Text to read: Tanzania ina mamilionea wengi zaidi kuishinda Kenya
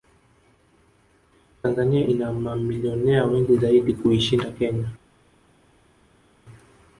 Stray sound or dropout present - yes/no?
no